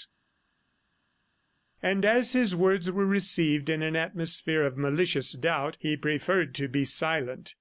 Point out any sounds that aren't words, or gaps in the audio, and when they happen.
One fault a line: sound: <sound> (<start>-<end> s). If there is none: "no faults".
no faults